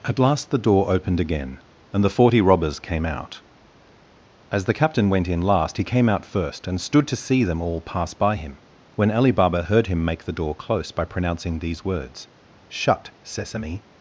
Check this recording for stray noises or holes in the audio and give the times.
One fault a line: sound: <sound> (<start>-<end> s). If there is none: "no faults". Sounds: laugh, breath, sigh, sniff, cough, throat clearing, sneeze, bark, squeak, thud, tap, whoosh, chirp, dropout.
no faults